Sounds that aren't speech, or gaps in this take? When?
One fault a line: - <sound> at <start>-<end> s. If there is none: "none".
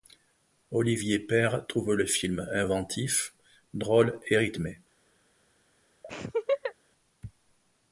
- laugh at 6.0-6.7 s